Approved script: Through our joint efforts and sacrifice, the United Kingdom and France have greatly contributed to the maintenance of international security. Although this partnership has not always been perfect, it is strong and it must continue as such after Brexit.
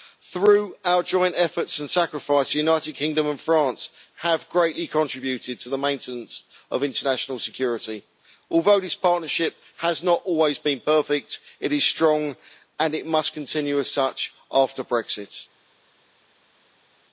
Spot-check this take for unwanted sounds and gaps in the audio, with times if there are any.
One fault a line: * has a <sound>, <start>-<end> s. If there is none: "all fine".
all fine